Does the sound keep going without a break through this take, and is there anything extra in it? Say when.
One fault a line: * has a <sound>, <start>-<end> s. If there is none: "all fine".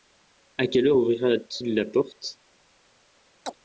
* has a chirp, 3.4-3.6 s